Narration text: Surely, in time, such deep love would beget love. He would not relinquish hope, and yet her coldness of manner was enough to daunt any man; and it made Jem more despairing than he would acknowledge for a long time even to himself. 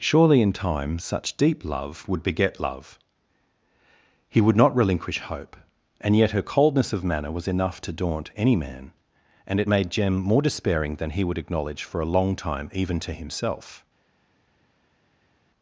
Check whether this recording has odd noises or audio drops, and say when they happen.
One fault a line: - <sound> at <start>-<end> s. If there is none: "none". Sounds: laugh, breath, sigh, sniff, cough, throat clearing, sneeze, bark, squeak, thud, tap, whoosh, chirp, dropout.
none